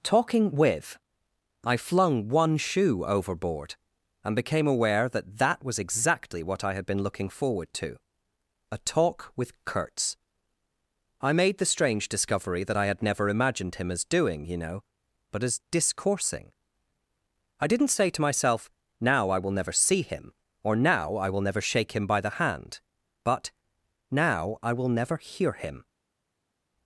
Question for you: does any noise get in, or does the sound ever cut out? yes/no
no